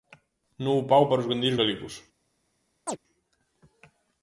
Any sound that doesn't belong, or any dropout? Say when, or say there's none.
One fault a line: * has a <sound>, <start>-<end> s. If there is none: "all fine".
* has a chirp, 2.9-3.0 s